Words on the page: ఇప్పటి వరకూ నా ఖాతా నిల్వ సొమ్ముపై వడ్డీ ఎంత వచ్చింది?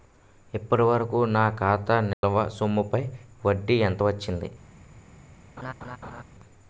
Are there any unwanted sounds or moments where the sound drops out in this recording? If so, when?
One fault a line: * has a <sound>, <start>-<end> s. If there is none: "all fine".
* has a dropout, 2.1-2.2 s
* has a laugh, 5.6-6.2 s